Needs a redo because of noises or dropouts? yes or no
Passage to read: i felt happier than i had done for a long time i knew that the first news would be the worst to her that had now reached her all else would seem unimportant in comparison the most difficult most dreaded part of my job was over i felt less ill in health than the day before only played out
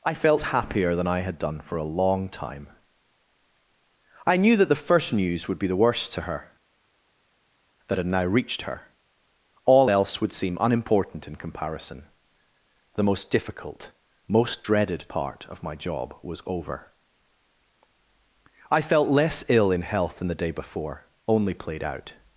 no